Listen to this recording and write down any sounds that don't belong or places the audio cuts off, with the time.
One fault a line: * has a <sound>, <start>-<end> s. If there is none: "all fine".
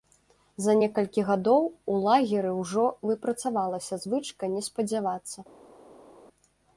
all fine